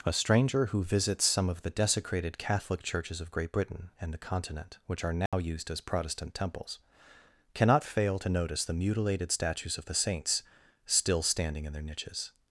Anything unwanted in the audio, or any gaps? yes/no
yes